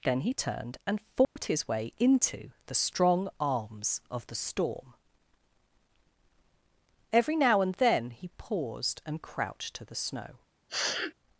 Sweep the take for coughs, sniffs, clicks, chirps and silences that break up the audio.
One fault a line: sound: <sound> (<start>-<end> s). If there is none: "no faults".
sound: dropout (1.2-1.4 s)
sound: sniff (10.7-11.1 s)